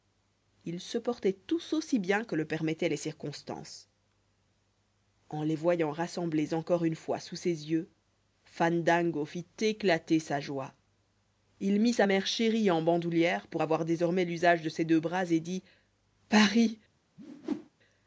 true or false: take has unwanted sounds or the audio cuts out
true